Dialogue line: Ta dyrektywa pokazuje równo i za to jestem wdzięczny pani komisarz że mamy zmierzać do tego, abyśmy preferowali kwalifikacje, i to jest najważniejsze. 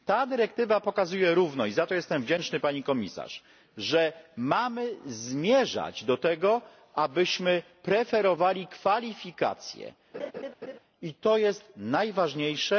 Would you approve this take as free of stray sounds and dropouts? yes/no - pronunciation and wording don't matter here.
no